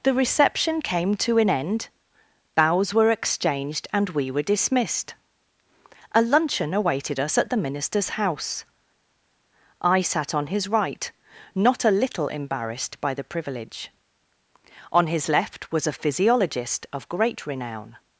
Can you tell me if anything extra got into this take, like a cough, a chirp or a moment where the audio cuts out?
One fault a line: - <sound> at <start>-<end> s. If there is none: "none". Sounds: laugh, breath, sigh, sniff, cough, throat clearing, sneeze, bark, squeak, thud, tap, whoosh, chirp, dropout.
none